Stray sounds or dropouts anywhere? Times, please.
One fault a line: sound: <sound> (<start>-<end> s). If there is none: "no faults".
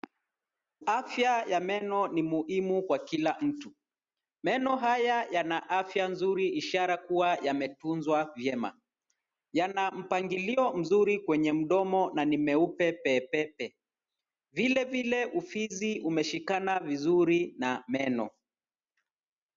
no faults